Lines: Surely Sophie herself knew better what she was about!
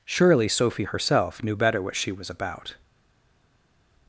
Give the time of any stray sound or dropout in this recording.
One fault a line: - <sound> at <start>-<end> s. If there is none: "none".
none